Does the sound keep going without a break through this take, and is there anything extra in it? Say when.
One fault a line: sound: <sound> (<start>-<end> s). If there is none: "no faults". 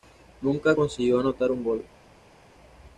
no faults